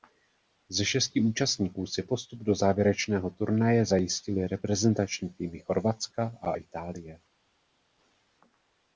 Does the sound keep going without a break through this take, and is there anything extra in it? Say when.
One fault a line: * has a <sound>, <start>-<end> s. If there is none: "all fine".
all fine